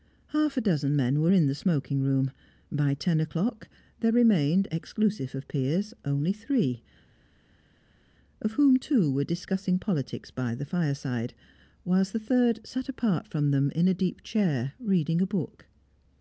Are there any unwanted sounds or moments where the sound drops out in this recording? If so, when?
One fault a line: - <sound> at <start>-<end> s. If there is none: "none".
none